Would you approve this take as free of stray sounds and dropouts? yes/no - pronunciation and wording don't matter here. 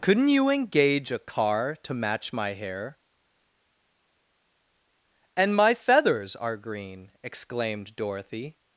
yes